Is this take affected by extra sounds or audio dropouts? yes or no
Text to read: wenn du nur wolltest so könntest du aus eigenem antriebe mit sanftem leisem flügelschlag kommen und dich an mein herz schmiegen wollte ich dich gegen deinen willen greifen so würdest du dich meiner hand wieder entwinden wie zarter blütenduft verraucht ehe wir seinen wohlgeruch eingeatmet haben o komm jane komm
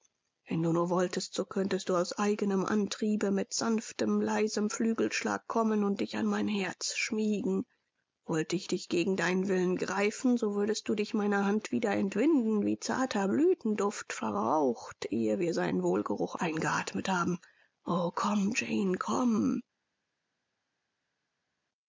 no